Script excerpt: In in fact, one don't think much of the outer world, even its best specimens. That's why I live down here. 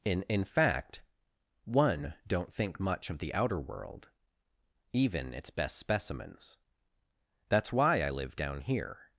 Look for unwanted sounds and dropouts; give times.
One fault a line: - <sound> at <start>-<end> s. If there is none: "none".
none